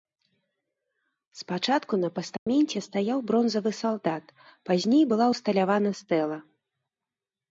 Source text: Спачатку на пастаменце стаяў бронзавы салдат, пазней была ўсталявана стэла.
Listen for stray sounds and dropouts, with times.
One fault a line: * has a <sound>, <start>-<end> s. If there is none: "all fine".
* has a dropout, 2.4-2.5 s